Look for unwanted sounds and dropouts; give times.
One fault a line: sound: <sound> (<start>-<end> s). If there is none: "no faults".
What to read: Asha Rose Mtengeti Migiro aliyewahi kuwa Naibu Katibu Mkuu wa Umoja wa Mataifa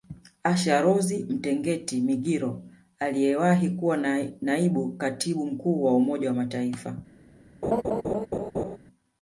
sound: laugh (7.6-8.8 s)